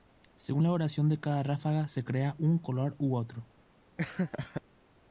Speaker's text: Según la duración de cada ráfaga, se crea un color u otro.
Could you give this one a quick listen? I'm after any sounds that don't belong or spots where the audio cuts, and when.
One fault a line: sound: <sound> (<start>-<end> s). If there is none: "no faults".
sound: laugh (4.0-4.6 s)